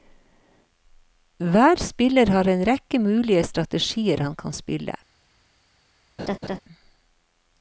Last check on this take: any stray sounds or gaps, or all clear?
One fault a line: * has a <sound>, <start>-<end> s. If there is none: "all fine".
* has a laugh, 6.2-6.6 s